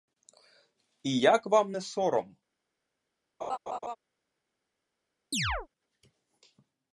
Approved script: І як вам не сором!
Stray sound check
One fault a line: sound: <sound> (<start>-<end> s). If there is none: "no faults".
sound: laugh (3.4-4.0 s)
sound: chirp (5.3-5.7 s)